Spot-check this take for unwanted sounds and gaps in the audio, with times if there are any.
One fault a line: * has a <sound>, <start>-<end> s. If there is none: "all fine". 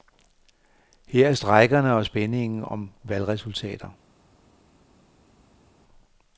all fine